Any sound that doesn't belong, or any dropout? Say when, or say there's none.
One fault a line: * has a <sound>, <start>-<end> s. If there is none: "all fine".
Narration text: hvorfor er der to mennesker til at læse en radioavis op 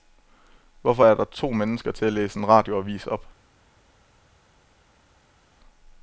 all fine